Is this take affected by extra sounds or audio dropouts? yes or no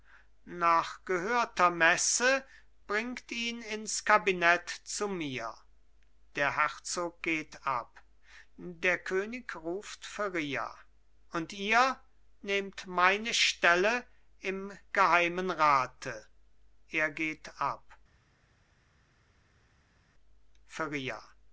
no